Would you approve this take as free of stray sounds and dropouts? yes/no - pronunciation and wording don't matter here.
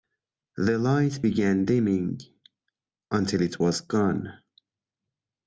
yes